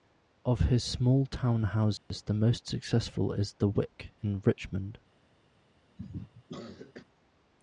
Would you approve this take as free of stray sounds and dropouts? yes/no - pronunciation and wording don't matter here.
no